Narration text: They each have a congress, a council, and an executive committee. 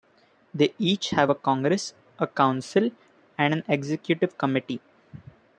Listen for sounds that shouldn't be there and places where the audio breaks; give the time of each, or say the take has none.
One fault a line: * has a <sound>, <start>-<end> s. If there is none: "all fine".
all fine